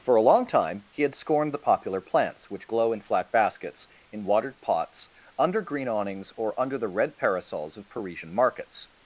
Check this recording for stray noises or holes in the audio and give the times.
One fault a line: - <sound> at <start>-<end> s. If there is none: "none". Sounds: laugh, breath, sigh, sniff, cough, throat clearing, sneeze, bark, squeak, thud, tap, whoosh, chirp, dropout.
none